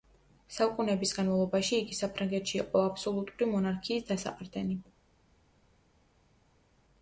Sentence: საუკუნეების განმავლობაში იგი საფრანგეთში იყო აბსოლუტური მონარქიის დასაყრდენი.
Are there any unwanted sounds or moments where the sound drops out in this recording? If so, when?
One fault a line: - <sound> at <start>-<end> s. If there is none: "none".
none